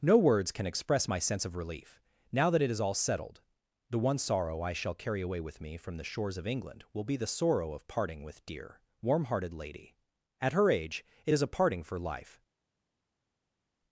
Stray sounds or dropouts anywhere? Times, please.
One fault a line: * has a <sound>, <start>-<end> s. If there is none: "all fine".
all fine